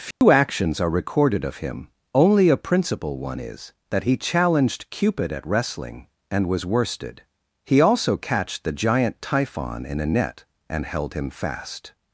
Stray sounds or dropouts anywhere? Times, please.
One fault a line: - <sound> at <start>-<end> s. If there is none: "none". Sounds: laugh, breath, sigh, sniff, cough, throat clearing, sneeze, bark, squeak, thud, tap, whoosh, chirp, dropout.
- dropout at 0.1-0.2 s